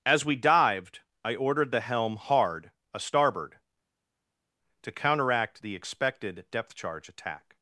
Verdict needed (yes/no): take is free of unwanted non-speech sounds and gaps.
yes